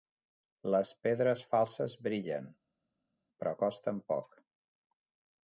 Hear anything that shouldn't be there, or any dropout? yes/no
no